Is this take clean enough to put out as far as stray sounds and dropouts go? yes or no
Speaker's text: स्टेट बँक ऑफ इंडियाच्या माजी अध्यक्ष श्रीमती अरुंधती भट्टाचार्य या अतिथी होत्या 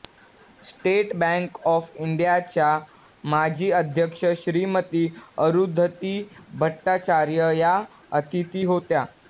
yes